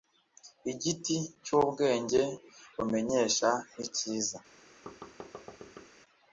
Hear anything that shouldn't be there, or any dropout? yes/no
yes